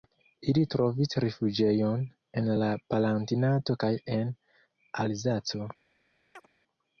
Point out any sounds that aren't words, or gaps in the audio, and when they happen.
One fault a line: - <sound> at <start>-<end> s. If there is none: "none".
- chirp at 6.4-6.5 s